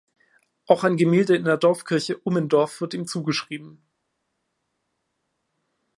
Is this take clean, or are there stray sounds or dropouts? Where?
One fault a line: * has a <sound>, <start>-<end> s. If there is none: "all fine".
all fine